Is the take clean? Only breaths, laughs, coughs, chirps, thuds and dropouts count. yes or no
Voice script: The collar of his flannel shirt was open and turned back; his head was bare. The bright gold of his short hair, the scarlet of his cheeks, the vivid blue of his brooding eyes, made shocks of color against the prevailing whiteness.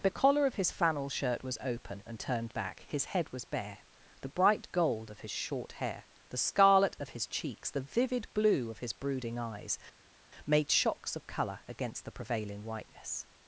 yes